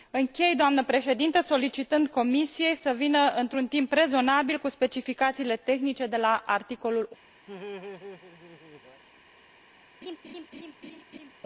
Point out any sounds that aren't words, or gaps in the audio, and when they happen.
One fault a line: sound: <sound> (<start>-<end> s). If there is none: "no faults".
sound: laugh (7.5-9.0 s)
sound: laugh (10.0-11.3 s)